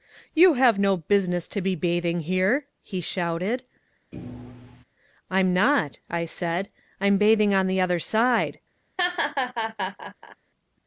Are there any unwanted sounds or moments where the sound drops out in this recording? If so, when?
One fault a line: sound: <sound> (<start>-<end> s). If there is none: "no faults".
sound: thud (4.1-4.8 s)
sound: laugh (9.0-10.4 s)